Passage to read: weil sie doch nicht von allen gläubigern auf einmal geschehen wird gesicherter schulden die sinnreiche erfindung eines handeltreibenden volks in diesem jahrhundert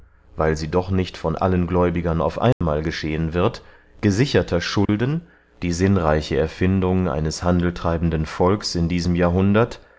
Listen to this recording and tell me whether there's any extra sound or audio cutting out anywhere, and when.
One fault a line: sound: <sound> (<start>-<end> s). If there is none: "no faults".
sound: dropout (2.5-2.6 s)
sound: dropout (4.9-4.9 s)